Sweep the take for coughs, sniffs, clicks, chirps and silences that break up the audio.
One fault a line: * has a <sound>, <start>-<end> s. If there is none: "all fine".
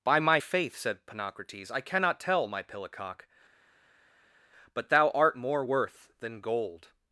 all fine